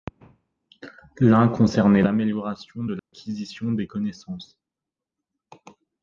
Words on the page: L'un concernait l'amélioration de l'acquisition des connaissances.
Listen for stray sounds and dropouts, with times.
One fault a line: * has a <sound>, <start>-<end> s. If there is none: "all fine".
* has a dropout, 3.0-3.1 s